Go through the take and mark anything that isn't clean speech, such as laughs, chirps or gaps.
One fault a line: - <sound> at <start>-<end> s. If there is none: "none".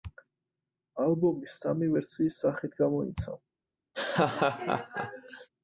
- laugh at 3.9-5.5 s